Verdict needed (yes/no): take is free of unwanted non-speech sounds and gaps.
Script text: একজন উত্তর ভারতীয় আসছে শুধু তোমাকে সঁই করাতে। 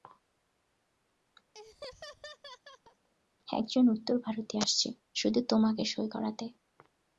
no